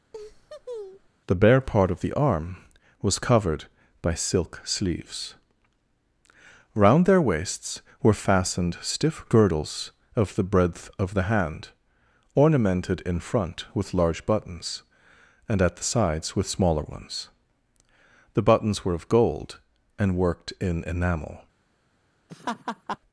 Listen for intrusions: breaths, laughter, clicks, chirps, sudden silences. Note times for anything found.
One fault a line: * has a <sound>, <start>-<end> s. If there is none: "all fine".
* has a laugh, 0.1-1.1 s
* has a laugh, 22.3-23.0 s